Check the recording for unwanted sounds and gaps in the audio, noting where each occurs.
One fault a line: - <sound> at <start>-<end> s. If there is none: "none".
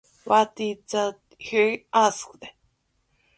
none